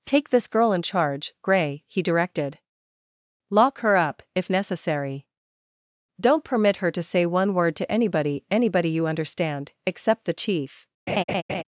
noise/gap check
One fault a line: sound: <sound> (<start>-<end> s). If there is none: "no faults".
sound: laugh (11.1-11.6 s)